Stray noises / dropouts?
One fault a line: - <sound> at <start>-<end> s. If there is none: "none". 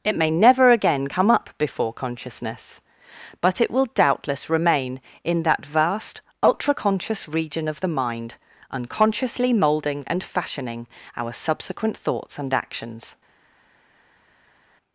none